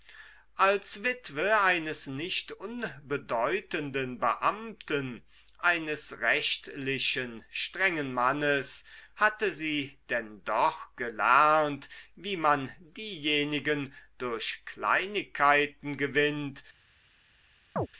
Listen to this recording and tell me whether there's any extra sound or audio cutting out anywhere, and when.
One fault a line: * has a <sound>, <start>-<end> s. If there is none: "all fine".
* has a chirp, 17.8-17.9 s